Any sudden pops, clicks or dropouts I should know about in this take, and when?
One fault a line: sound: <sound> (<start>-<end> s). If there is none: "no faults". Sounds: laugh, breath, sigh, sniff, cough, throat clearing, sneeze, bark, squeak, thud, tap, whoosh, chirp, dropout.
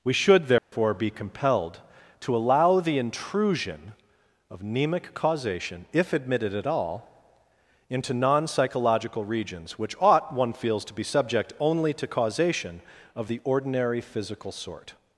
sound: dropout (0.6-0.7 s)